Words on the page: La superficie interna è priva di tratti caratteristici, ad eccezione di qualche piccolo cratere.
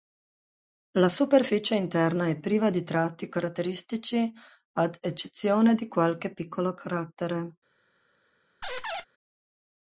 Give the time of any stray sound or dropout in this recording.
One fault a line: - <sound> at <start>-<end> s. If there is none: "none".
- squeak at 8.6-9.1 s